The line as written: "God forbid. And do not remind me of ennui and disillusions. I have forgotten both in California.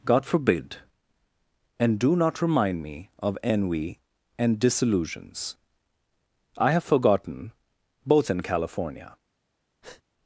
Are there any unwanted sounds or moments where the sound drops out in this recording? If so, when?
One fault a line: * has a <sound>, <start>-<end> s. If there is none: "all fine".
* has a breath, 9.8-10.0 s